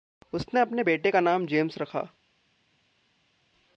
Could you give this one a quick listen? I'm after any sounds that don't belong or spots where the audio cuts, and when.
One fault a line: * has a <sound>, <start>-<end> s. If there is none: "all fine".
all fine